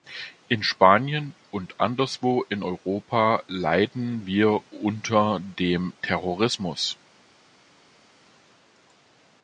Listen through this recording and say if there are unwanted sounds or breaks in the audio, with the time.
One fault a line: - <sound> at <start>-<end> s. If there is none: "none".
none